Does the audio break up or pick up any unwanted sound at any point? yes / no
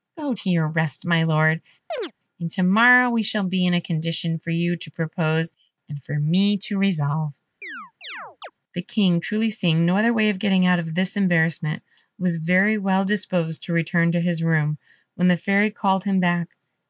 yes